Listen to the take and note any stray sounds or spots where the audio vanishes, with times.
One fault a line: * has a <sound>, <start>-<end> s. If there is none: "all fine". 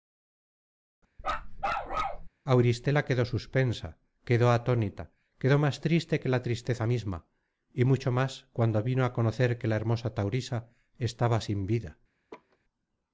* has a bark, 1.2-2.3 s
* has a laugh, 12.3-12.6 s